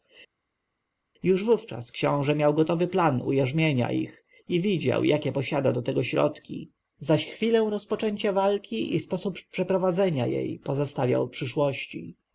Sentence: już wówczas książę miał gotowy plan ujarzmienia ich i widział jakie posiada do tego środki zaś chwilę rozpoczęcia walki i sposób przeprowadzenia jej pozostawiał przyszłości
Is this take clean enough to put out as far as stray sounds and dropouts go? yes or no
yes